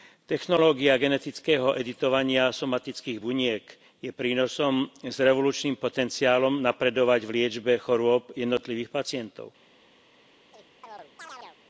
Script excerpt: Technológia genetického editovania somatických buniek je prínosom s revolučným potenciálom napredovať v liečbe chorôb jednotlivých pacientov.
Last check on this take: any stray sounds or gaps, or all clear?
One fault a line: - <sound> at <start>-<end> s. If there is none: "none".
- chirp at 10.5-11.6 s